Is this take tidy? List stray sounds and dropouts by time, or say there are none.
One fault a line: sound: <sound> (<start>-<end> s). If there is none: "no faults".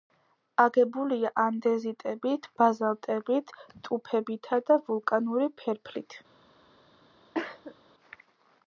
sound: cough (7.3-7.7 s)